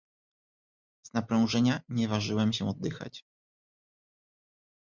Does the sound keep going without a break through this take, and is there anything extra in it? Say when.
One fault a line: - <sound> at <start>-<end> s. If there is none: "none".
none